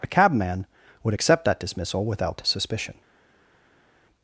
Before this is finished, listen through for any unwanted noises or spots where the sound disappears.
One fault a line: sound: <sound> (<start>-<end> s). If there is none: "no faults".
no faults